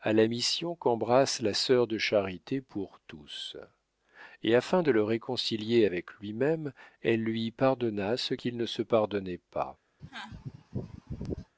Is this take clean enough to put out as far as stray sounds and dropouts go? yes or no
no